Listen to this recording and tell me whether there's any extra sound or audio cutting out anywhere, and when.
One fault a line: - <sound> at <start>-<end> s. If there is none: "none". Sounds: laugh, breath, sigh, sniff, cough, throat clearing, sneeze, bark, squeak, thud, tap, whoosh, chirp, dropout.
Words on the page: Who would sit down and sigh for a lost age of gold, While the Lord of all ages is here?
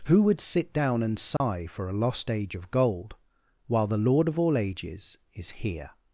- dropout at 1.4-1.4 s